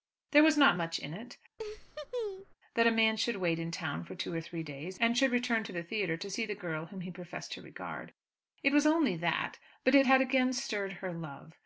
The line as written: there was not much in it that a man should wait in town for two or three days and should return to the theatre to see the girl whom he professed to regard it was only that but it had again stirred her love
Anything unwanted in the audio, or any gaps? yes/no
yes